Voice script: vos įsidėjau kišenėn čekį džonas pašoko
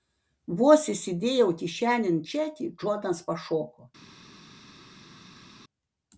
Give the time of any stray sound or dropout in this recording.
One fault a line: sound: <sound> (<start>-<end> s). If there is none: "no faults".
no faults